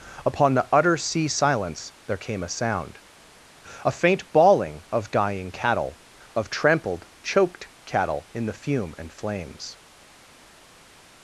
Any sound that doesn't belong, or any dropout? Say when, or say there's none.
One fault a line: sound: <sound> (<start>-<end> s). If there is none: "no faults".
no faults